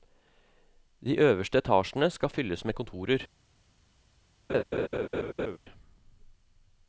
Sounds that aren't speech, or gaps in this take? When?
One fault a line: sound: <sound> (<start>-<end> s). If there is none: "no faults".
sound: laugh (4.5-5.6 s)